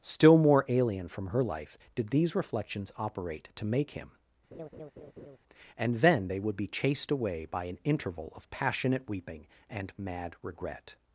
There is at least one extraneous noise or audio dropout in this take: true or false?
true